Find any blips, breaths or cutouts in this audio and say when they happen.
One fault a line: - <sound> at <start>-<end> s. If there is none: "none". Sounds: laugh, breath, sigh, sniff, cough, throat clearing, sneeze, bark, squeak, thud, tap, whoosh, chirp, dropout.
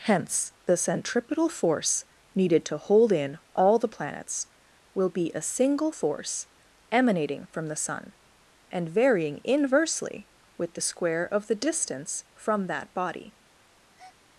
- breath at 13.9-14.2 s